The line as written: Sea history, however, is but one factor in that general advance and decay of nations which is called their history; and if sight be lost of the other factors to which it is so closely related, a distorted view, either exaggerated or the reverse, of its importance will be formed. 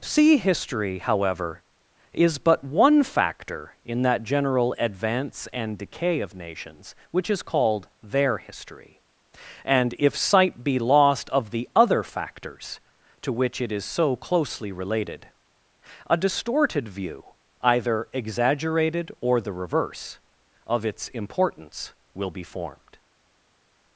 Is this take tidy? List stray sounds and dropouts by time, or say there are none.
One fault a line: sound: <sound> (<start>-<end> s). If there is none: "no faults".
no faults